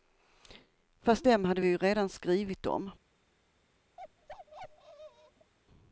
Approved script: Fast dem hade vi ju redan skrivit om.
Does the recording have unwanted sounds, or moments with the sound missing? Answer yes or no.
yes